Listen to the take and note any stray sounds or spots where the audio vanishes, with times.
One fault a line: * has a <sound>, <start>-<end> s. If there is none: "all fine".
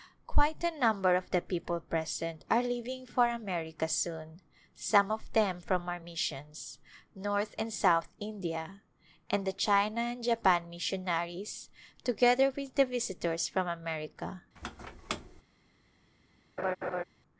* has a squeak, 14.6-15.4 s
* has a laugh, 16.6-17.0 s